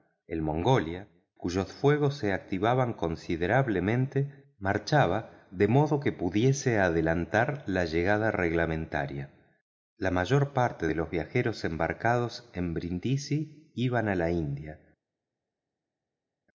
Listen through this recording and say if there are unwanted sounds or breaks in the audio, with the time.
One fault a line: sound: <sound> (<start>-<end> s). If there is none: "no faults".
no faults